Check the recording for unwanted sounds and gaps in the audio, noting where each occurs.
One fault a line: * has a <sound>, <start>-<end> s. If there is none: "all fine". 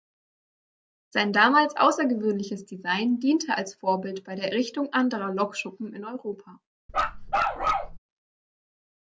* has a bark, 6.9-8.0 s